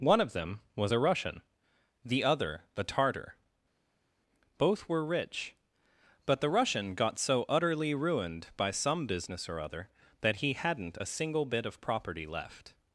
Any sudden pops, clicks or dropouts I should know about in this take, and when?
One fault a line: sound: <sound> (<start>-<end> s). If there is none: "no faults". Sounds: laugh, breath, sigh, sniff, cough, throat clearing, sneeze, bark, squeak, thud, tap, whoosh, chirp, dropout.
no faults